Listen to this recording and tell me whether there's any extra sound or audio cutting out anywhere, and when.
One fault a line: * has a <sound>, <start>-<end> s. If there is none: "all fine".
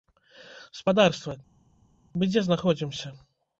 all fine